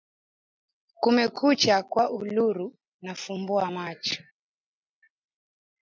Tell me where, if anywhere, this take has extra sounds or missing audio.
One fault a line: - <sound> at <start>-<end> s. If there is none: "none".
none